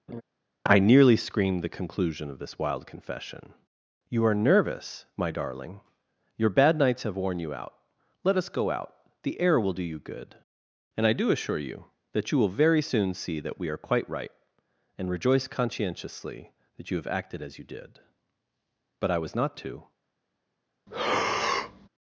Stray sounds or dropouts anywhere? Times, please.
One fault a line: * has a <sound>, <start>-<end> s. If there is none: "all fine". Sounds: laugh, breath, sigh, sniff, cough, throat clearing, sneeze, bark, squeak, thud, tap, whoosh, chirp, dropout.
* has a laugh, 0.1-0.2 s
* has a breath, 20.9-21.9 s